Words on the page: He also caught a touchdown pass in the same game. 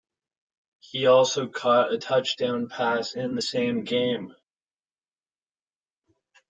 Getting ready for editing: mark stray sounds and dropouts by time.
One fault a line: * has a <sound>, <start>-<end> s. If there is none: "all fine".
all fine